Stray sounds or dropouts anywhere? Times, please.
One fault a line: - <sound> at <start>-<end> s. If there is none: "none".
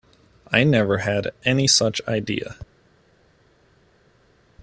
none